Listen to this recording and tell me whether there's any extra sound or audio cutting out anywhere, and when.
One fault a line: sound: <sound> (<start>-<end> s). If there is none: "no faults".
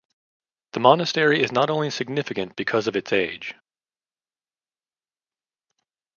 no faults